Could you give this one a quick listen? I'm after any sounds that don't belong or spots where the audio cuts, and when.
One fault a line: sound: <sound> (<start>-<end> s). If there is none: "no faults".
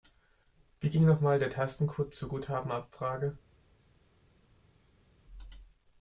no faults